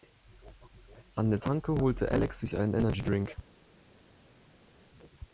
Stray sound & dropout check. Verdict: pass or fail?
pass